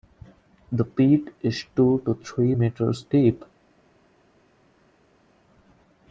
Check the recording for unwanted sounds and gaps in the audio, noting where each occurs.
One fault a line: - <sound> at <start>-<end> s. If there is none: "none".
none